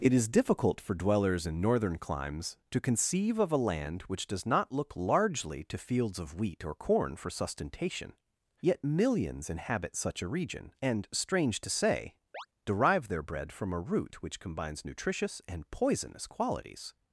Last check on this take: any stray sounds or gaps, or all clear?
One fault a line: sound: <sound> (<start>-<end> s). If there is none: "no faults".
sound: chirp (12.3-12.5 s)